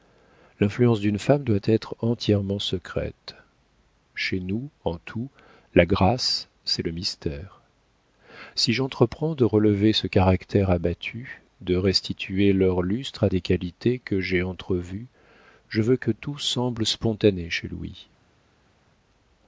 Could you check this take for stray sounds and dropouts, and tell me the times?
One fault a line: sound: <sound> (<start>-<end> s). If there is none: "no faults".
no faults